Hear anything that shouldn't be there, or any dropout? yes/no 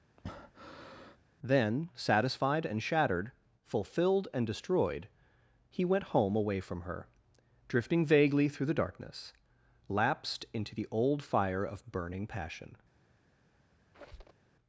yes